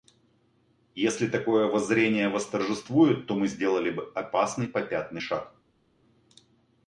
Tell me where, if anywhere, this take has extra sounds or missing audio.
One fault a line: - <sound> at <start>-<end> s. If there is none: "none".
none